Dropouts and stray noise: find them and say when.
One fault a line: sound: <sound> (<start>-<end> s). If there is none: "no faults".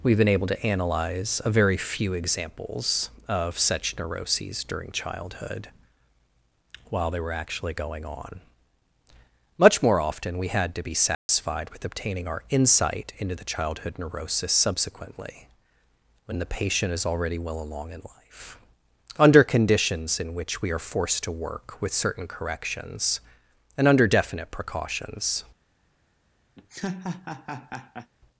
sound: dropout (11.1-11.3 s)
sound: laugh (26.6-28.1 s)